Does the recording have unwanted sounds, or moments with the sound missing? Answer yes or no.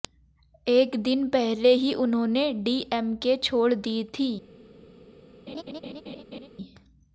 yes